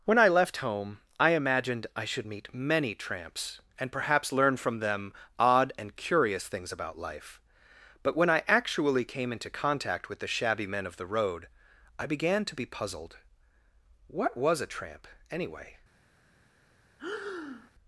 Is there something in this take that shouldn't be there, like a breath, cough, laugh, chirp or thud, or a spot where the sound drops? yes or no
yes